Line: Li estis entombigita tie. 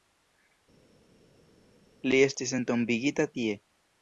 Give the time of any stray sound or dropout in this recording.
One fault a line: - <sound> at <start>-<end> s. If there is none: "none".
none